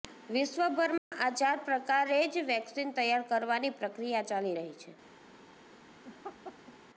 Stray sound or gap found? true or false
true